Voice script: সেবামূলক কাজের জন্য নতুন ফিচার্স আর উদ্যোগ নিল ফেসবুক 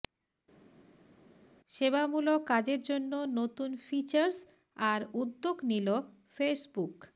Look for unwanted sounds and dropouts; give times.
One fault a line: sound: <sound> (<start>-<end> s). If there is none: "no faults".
no faults